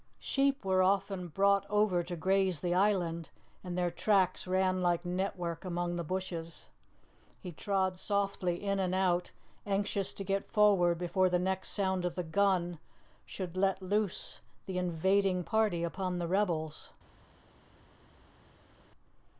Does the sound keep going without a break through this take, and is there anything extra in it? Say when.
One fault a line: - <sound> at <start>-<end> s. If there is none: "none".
none